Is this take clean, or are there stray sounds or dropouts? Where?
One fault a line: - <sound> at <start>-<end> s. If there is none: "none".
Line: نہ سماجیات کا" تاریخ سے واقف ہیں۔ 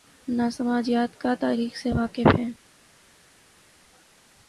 none